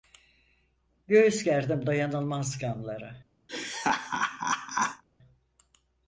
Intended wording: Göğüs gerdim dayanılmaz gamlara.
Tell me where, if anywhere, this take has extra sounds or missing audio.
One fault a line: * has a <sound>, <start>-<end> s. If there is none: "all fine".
* has a laugh, 3.5-5.0 s